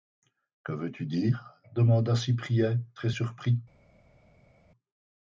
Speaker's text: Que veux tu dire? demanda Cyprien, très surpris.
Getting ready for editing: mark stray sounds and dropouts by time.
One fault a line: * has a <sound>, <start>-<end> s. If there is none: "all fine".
all fine